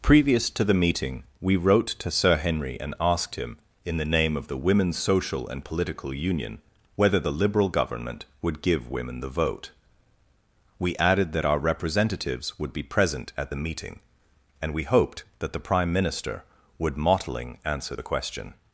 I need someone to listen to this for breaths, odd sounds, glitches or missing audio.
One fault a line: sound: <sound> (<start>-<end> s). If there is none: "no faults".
no faults